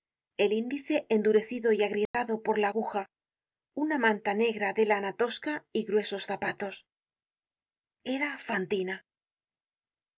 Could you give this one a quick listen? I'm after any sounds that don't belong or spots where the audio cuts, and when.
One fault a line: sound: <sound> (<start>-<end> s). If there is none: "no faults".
sound: dropout (2.1-2.1 s)